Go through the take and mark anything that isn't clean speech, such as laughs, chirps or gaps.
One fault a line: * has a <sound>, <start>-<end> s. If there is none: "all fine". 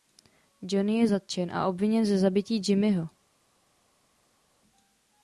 all fine